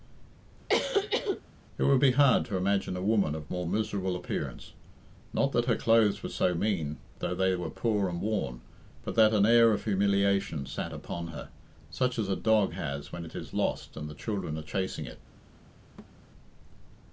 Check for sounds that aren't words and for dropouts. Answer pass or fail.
fail